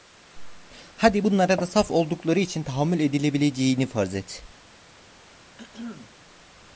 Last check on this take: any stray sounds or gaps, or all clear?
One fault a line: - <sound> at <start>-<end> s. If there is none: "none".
- throat clearing at 5.6-6.1 s